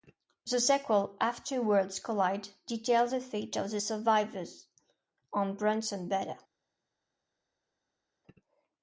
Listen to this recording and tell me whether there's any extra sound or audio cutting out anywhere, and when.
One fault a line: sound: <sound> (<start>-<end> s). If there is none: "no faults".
no faults